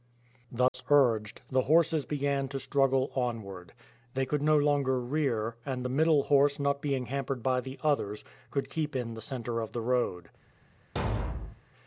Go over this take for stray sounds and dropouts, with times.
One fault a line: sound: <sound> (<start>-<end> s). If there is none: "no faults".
sound: dropout (0.7-0.7 s)
sound: thud (11.0-11.6 s)